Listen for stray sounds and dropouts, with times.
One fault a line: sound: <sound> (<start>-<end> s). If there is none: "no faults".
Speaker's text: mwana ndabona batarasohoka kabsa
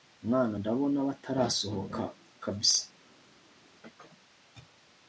no faults